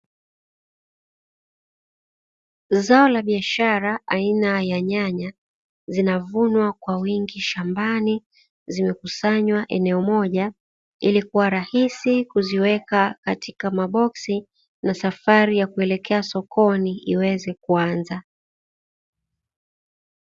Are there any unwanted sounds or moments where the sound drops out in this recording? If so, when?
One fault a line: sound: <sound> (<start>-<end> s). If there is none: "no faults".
no faults